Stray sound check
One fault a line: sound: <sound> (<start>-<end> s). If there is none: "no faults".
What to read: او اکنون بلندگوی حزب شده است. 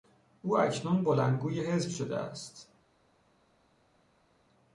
no faults